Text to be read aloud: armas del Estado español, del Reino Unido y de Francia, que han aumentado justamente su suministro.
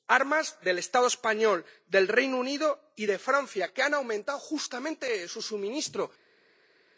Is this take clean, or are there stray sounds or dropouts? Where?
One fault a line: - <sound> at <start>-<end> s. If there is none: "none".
none